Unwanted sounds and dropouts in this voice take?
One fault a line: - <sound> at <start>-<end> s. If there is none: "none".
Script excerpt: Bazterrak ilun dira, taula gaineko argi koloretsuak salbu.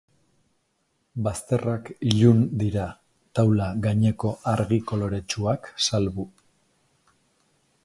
none